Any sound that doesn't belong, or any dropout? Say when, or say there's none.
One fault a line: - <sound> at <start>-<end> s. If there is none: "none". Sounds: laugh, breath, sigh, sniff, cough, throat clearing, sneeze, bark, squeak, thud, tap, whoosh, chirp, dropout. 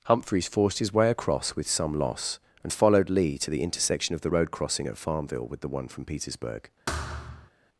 - thud at 6.9-7.5 s